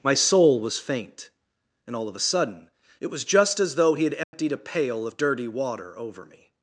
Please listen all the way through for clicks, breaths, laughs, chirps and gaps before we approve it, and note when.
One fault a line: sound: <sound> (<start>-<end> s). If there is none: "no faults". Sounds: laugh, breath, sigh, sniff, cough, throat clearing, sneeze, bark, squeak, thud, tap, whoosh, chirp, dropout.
sound: dropout (4.2-4.3 s)